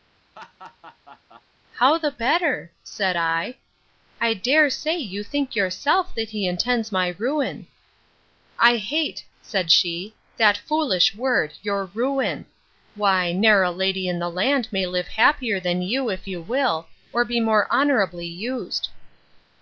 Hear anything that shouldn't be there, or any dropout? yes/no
yes